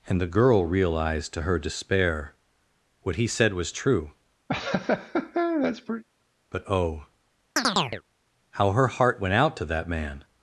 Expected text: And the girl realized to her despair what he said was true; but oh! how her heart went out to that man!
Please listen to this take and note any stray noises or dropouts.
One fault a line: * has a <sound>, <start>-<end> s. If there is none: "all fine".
* has a laugh, 4.5-6.0 s
* has a chirp, 7.6-8.0 s